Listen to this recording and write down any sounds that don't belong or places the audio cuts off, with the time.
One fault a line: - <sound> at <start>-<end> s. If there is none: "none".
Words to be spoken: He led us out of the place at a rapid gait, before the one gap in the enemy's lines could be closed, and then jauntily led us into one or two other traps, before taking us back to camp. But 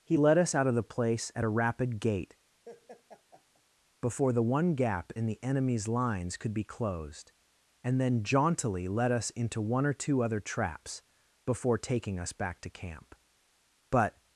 - laugh at 2.6-3.6 s